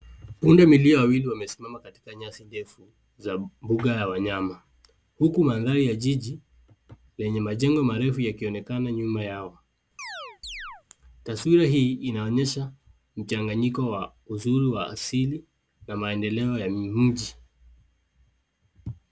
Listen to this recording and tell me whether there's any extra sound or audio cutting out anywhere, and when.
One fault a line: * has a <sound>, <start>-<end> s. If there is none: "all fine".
* has a chirp, 10.0-10.8 s